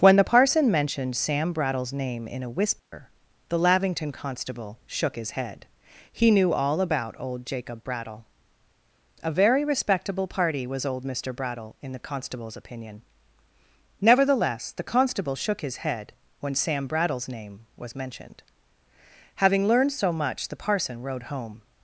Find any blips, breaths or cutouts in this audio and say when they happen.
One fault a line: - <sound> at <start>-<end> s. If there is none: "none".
- dropout at 2.8-2.9 s